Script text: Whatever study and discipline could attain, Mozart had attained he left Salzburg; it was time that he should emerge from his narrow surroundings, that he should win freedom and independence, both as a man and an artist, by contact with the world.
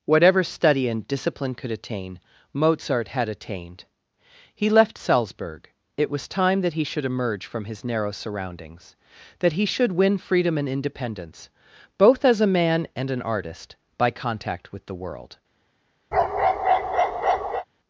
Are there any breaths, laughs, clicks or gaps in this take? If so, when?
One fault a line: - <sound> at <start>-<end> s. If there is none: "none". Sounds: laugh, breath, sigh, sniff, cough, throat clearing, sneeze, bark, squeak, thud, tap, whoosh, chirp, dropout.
- bark at 16.1-17.7 s